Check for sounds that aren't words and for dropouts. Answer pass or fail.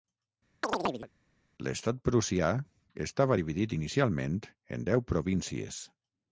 fail